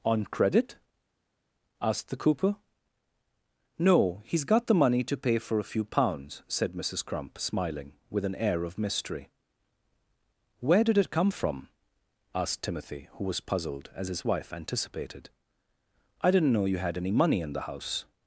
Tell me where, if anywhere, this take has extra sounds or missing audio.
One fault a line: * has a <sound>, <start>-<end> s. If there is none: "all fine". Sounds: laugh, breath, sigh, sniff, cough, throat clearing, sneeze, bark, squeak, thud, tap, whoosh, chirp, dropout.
all fine